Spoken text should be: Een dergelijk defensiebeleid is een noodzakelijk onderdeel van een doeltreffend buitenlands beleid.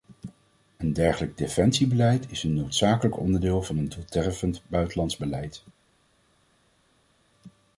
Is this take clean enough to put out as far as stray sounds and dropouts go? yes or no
yes